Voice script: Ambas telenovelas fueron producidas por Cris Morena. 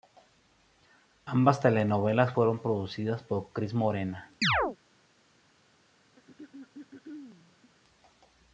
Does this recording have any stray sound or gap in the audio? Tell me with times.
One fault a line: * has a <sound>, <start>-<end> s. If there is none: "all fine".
* has a chirp, 4.4-4.8 s
* has a throat clearing, 6.2-7.7 s